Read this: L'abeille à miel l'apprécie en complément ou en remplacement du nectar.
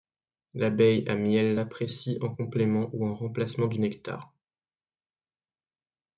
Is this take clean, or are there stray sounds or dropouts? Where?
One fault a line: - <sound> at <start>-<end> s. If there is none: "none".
none